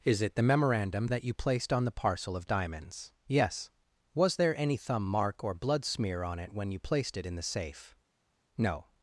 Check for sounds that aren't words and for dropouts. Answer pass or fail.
pass